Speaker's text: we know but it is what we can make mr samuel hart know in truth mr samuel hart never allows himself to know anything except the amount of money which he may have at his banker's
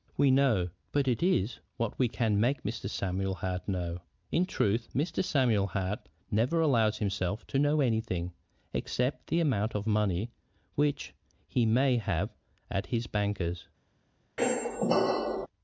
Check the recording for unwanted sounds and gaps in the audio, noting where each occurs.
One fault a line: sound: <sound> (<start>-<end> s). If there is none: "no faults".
sound: squeak (14.4-15.5 s)